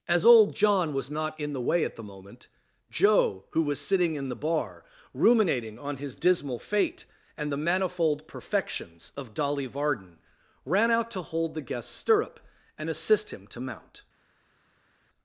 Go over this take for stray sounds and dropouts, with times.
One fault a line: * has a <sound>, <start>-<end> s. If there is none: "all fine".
all fine